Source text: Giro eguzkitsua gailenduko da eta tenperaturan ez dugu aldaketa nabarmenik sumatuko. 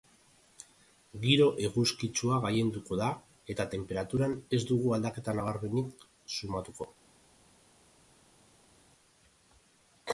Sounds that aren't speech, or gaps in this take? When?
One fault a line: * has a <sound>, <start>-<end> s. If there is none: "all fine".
all fine